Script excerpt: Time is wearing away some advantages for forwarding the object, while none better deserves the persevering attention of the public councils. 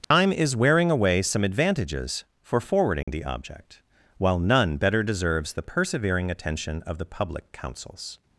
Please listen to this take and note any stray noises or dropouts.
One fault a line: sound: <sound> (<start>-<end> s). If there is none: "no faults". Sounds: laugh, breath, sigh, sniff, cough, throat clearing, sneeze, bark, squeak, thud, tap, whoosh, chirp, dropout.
sound: dropout (0.0-0.1 s)
sound: dropout (3.0-3.1 s)